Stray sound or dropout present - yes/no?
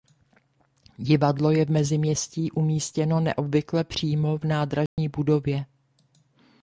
yes